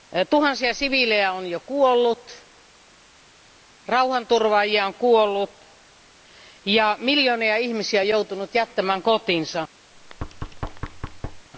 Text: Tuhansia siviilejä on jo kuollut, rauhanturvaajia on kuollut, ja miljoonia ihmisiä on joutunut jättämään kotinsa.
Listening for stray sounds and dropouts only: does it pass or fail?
fail